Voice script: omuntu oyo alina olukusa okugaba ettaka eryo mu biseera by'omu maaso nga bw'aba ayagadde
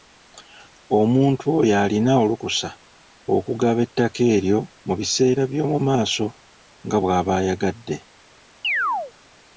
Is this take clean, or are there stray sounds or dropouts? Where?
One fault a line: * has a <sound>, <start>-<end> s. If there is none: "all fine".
* has a chirp, 8.6-9.1 s